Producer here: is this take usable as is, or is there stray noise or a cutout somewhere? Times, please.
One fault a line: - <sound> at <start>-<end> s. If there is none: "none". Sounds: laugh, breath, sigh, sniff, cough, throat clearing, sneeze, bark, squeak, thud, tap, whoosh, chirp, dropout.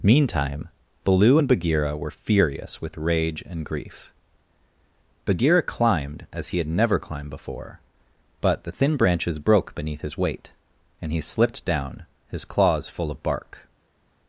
none